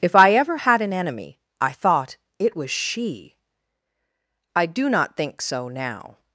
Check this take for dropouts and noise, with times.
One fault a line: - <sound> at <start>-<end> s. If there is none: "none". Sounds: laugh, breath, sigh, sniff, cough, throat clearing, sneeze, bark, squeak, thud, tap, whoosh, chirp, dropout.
none